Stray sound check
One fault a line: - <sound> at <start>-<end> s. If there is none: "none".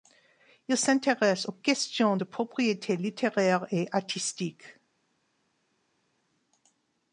none